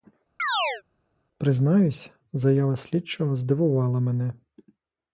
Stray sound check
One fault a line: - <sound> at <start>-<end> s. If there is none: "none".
- chirp at 0.4-0.8 s